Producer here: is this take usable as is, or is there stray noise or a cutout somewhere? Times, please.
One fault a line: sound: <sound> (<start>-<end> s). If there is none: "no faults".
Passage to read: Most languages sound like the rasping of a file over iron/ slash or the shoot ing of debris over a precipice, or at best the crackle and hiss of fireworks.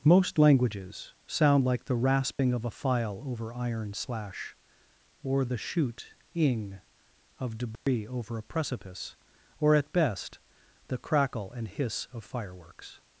sound: dropout (2.3-2.4 s)
sound: dropout (7.8-7.9 s)